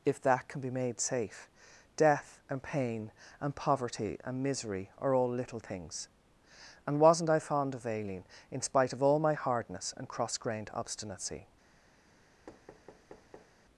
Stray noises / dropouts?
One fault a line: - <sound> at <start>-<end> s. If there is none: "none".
- thud at 12.5-13.6 s